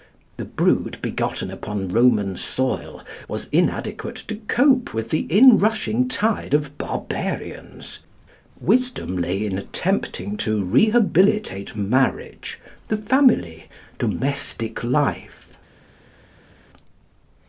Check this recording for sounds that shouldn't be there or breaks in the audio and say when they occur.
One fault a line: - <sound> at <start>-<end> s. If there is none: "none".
none